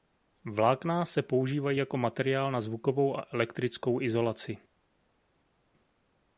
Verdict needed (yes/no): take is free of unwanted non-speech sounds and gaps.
yes